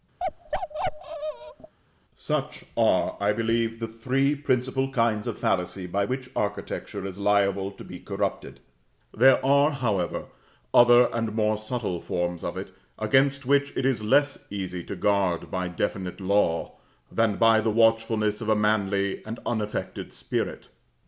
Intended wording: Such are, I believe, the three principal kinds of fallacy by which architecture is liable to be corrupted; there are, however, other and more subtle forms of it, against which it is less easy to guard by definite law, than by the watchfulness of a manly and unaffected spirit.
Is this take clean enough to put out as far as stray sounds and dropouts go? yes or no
no